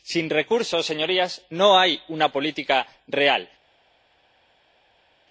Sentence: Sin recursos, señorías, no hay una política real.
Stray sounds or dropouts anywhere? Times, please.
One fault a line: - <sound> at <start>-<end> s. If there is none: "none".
none